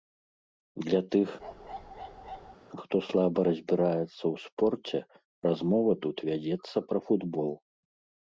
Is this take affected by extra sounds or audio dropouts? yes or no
yes